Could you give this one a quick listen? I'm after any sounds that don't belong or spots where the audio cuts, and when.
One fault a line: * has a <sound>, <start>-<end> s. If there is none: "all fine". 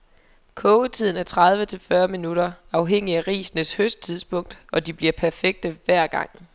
all fine